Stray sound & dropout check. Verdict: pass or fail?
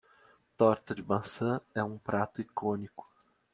pass